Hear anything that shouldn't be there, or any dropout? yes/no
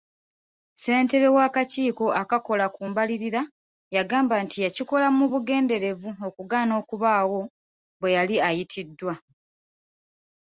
no